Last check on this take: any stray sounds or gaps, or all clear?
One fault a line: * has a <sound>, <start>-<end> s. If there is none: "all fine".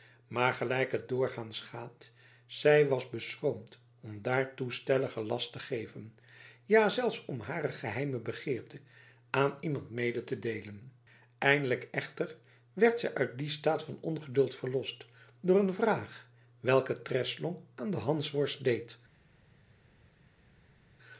all fine